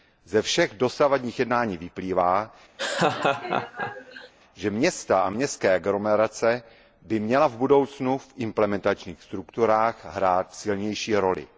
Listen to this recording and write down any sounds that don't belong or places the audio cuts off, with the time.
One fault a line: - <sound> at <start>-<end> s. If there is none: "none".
- laugh at 2.8-4.3 s